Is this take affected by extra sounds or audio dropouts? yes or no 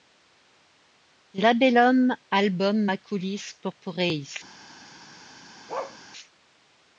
yes